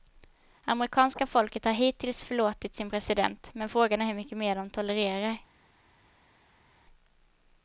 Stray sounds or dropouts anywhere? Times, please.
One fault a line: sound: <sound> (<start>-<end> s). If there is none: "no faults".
no faults